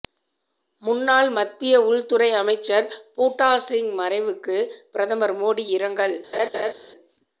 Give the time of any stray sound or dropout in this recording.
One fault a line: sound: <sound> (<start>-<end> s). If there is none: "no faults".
sound: laugh (6.3-6.7 s)